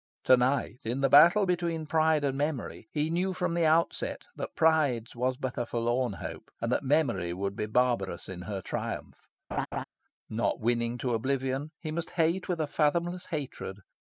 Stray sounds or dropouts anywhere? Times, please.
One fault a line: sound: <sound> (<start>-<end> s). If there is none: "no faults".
sound: laugh (9.5-9.8 s)